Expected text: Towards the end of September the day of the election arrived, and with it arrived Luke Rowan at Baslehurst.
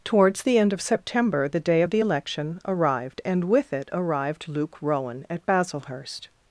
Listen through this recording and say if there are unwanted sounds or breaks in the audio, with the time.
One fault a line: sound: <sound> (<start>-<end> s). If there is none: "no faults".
no faults